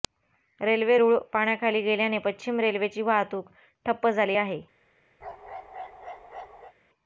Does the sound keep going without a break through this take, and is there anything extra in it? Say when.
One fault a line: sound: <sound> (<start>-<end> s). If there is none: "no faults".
sound: bark (5.2-6.7 s)